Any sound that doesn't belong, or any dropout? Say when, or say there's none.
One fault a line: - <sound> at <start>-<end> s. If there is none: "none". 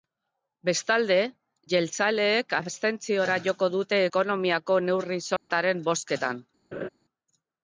- dropout at 5.4-5.5 s
- laugh at 6.7-6.9 s